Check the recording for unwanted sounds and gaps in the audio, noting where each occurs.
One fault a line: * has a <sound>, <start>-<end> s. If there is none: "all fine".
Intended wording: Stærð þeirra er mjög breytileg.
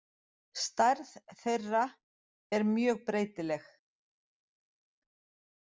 all fine